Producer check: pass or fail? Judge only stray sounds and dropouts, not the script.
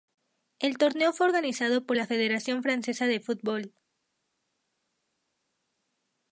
pass